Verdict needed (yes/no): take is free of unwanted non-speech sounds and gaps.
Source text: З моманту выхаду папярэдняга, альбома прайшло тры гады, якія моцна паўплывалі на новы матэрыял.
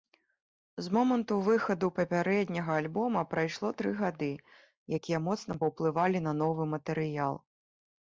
yes